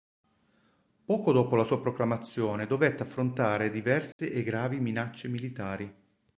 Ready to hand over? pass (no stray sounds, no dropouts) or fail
fail